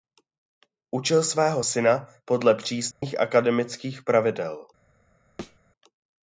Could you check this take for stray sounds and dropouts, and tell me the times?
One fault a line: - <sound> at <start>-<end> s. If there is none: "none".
- dropout at 2.9-3.0 s
- thud at 5.4-5.6 s